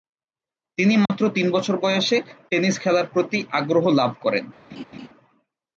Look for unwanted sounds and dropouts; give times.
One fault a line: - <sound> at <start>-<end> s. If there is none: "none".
- dropout at 1.1-1.1 s
- laugh at 4.7-5.1 s